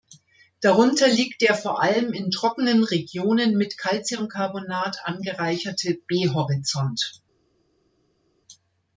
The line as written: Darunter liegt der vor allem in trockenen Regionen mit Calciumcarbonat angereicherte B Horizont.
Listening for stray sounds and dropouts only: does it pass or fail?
pass